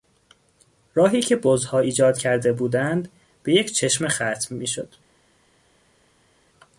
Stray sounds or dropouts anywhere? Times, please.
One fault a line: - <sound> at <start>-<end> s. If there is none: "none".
none